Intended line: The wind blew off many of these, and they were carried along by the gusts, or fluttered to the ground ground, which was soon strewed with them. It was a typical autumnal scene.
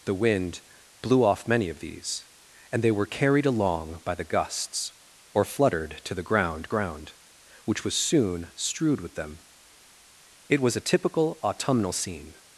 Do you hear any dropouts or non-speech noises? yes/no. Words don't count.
no